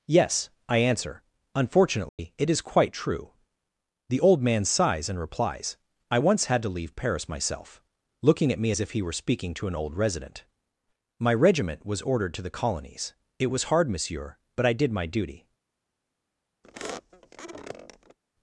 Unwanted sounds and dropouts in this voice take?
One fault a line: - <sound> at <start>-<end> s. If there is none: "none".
- dropout at 2.1-2.2 s
- squeak at 16.6-18.2 s